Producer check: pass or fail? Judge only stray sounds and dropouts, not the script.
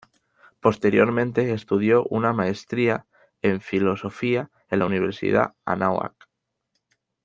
pass